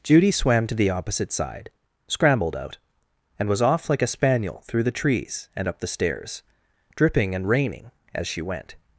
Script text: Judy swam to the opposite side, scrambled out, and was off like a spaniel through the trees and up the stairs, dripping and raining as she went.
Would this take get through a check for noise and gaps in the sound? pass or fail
pass